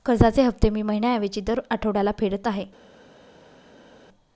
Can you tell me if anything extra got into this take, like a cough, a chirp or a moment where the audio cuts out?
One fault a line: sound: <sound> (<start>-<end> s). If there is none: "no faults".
no faults